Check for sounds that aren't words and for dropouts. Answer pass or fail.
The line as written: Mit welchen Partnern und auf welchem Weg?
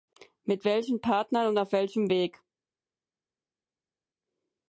pass